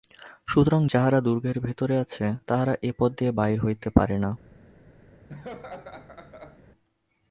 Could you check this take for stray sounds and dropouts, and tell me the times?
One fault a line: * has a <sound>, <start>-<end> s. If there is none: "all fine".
* has a laugh, 5.3-6.6 s